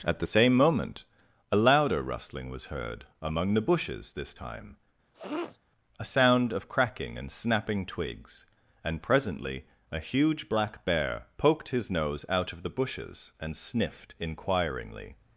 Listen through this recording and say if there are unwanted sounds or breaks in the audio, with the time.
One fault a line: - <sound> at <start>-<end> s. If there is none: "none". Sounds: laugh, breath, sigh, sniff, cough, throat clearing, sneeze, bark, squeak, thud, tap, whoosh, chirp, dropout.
- sniff at 5.1-5.6 s